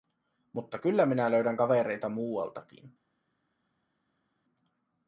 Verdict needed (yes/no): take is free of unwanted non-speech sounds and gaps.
yes